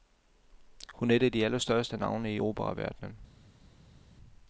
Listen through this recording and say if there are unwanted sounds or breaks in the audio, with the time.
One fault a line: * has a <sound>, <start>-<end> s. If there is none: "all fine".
all fine